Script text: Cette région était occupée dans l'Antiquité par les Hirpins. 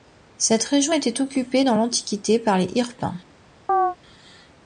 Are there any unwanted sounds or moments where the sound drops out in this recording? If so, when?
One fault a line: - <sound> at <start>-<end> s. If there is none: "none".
- chirp at 3.7-4.0 s